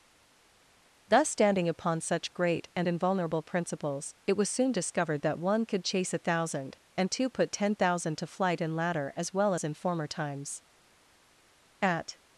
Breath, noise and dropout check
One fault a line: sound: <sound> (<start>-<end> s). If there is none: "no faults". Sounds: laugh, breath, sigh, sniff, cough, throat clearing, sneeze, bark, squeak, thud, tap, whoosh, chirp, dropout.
no faults